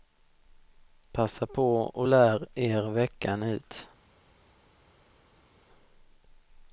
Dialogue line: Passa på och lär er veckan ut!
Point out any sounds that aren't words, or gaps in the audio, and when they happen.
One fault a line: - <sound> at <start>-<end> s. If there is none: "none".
none